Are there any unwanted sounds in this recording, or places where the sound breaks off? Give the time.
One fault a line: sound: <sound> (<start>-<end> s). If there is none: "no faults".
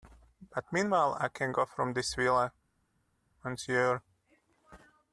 no faults